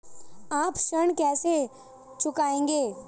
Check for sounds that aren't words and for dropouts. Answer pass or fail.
pass